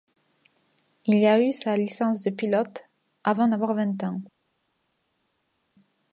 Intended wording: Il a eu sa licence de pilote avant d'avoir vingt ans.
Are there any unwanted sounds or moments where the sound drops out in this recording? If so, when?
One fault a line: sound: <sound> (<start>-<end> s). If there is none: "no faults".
no faults